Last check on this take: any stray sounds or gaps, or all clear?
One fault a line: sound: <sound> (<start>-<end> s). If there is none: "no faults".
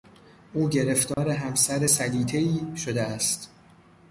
sound: dropout (1.1-1.2 s)